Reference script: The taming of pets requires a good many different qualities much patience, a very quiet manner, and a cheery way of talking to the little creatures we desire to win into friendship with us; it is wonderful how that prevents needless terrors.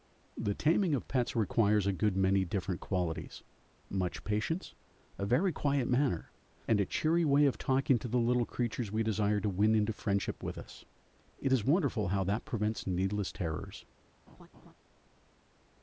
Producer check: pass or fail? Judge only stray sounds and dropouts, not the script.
fail